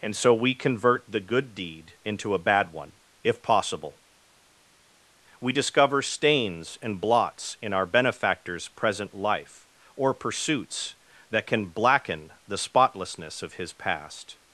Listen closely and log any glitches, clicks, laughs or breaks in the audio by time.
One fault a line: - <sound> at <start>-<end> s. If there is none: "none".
none